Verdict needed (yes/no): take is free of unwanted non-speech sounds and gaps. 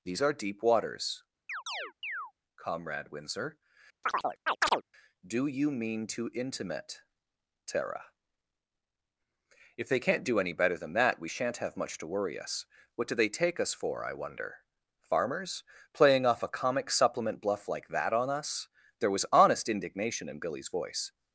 no